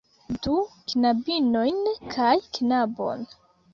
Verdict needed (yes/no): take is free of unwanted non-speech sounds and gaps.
yes